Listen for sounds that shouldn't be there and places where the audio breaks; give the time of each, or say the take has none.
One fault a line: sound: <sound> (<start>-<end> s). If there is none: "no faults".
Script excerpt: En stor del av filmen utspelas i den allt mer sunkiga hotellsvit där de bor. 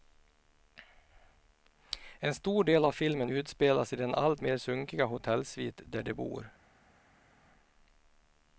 no faults